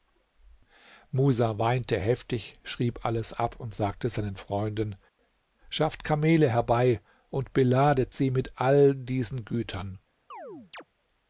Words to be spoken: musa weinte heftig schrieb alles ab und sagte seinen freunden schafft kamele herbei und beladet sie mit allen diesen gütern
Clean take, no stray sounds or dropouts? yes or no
no